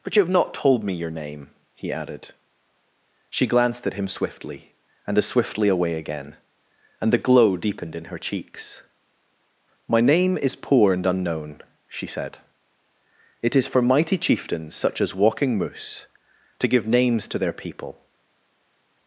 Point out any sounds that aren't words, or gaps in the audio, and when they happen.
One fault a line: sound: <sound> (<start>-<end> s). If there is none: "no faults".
no faults